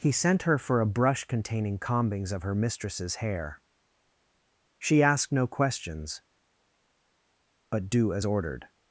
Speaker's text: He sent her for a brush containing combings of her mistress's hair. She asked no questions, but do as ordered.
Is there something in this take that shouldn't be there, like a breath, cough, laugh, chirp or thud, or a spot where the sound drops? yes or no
no